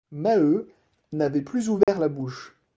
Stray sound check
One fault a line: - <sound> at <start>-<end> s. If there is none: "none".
- dropout at 1.8-1.9 s